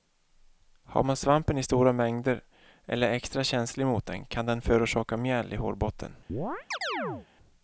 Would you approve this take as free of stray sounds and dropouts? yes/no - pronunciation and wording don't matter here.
no